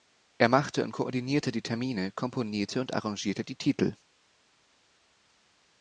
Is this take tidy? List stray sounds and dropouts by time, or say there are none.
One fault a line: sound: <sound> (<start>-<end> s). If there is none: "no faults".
no faults